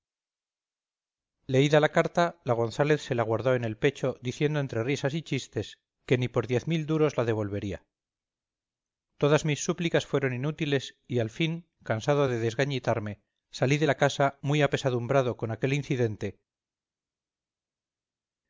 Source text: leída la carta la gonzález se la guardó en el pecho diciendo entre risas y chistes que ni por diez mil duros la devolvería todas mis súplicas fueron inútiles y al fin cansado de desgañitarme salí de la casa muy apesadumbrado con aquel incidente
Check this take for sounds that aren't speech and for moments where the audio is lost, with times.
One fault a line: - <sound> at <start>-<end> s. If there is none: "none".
none